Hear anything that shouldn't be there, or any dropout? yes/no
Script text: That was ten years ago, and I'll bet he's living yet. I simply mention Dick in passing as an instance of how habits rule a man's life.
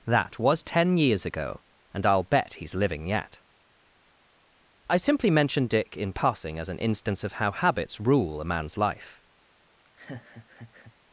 yes